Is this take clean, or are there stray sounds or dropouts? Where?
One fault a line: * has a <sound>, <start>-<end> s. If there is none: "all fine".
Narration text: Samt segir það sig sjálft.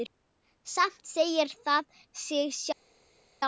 all fine